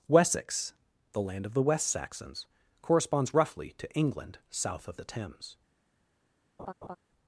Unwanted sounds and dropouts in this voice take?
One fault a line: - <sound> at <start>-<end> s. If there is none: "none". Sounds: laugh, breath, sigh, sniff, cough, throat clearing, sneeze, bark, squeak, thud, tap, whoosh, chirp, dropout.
- laugh at 6.6-7.0 s